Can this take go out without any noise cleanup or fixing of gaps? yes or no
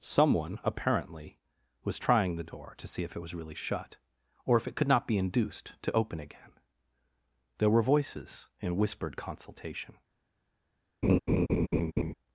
no